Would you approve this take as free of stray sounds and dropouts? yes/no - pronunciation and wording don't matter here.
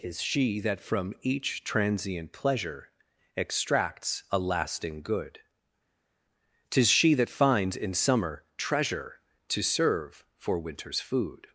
yes